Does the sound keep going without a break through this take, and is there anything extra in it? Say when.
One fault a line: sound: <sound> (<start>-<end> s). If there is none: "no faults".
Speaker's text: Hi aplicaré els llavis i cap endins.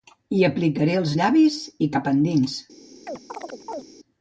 sound: chirp (3.1-3.8 s)